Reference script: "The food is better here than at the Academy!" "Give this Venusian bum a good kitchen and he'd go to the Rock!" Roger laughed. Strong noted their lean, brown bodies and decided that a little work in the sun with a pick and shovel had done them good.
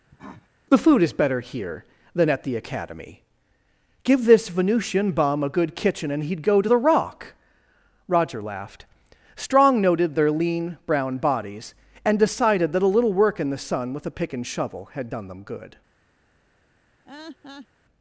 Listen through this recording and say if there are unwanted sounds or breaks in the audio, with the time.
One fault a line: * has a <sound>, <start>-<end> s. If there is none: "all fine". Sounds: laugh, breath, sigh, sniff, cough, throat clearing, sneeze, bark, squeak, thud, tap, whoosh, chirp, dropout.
* has a cough, 0.1-0.5 s
* has a laugh, 17.0-17.7 s